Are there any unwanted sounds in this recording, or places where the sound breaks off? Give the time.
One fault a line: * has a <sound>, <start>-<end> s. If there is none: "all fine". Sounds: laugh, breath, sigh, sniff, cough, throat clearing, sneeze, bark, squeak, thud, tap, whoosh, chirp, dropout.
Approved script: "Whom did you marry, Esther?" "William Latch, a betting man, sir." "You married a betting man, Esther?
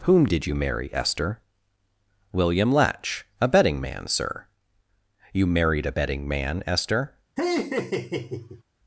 * has a laugh, 7.4-8.6 s